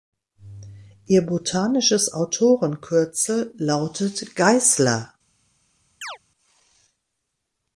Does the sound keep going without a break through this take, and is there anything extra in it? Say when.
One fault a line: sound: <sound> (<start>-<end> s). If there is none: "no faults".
sound: chirp (6.0-6.2 s)